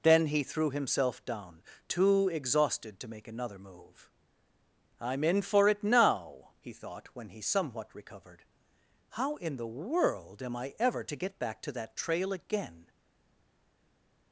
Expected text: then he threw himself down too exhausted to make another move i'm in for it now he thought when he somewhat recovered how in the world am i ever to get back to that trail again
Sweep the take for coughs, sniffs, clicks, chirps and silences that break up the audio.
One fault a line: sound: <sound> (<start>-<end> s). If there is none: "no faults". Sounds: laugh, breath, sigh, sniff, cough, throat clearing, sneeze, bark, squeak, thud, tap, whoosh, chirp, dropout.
no faults